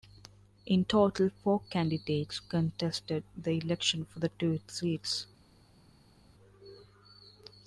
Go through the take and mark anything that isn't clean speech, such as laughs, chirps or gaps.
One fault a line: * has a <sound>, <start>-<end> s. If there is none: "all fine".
all fine